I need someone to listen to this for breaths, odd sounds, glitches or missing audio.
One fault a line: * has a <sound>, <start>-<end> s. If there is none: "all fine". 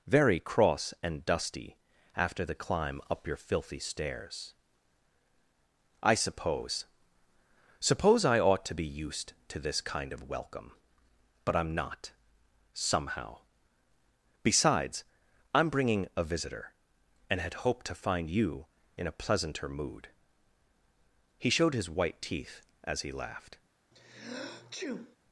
* has a sneeze, 23.9-25.2 s